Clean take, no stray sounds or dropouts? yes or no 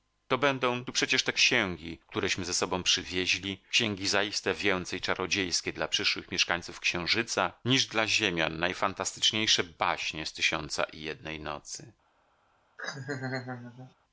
no